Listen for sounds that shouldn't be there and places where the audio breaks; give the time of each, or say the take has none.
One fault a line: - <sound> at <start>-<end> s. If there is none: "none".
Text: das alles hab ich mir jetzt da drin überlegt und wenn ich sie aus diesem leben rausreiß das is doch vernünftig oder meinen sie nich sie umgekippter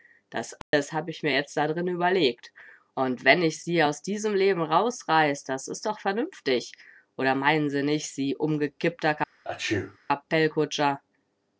- dropout at 0.6-0.7 s
- sneeze at 9.4-10.0 s